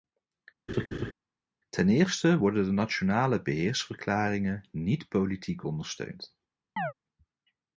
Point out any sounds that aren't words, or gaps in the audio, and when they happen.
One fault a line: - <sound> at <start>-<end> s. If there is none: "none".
- laugh at 0.7-1.1 s
- chirp at 6.8-6.9 s